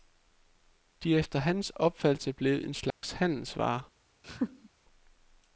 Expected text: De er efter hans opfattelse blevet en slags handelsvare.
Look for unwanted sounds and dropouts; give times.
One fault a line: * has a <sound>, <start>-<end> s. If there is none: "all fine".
* has a dropout, 2.9-3.0 s
* has a laugh, 4.2-4.7 s